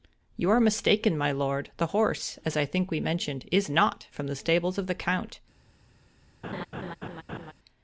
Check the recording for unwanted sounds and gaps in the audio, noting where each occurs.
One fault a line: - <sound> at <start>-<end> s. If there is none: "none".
- laugh at 6.4-7.5 s